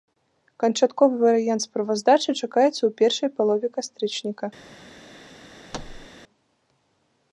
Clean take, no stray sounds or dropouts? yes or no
no